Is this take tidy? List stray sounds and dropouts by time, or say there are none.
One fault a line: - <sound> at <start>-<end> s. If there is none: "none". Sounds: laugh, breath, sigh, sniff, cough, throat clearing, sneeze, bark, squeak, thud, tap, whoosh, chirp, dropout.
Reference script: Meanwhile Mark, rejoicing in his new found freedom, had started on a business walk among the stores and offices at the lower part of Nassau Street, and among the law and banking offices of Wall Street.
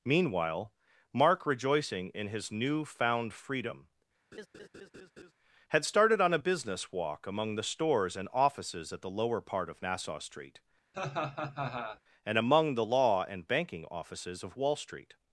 - laugh at 4.3-5.3 s
- laugh at 10.9-12.0 s